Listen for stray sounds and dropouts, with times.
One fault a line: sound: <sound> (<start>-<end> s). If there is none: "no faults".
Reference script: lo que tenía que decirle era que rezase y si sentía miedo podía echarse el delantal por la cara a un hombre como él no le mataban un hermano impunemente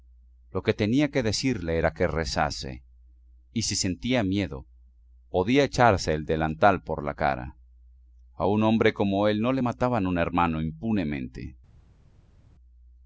no faults